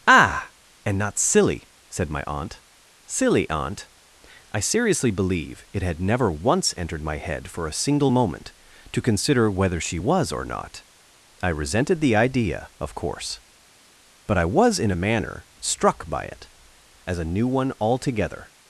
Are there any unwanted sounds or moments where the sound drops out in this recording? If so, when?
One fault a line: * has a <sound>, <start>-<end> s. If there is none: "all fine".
all fine